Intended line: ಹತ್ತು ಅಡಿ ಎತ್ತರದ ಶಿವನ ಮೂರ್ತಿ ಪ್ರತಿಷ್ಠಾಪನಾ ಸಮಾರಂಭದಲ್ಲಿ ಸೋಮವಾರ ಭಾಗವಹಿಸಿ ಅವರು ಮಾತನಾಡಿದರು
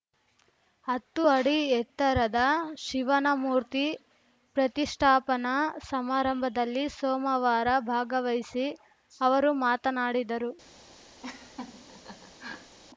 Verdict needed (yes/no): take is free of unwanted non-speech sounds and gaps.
no